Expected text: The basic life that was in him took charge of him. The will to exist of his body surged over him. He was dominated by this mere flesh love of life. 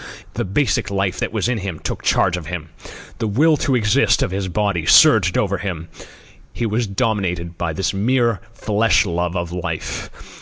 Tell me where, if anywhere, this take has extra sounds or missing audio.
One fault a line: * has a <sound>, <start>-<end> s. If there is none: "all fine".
all fine